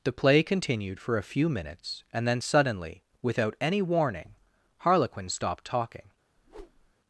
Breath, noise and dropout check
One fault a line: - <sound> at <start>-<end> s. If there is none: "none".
- whoosh at 6.4-6.9 s